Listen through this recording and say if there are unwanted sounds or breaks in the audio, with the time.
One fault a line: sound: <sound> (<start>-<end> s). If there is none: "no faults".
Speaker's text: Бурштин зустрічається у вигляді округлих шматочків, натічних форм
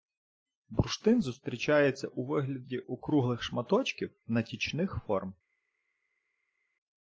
no faults